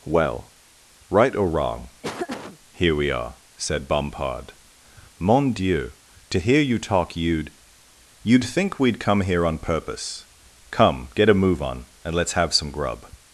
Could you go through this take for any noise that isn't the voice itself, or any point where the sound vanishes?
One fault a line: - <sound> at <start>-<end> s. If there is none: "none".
- laugh at 2.0-2.6 s